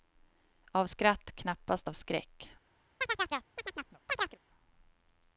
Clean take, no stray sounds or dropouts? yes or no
no